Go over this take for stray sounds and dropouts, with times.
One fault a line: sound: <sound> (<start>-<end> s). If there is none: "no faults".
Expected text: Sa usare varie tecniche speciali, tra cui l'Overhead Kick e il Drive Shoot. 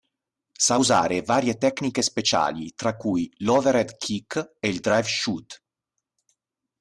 no faults